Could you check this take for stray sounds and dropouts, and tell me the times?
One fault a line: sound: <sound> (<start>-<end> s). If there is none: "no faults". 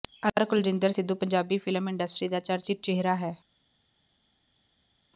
no faults